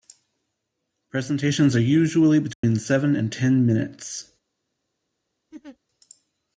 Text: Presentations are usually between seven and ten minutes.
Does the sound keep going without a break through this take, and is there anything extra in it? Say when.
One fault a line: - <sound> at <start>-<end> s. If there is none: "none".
- dropout at 2.5-2.6 s
- laugh at 5.5-5.8 s